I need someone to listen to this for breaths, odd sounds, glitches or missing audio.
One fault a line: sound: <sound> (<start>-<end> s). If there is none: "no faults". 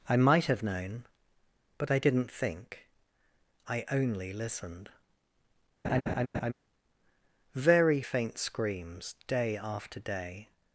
sound: laugh (5.8-6.5 s)